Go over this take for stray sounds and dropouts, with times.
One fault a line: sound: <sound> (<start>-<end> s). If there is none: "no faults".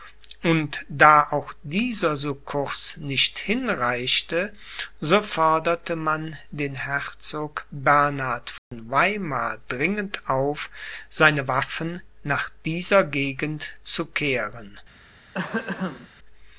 sound: dropout (8.6-8.7 s)
sound: throat clearing (15.3-16.1 s)